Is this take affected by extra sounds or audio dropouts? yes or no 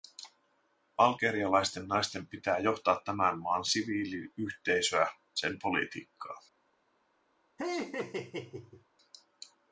yes